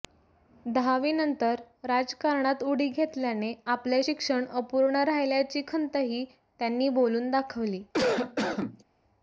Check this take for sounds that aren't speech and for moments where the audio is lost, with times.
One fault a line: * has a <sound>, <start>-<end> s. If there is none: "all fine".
* has a cough, 7.9-8.8 s